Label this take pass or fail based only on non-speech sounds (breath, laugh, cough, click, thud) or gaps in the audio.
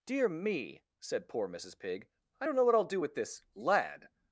pass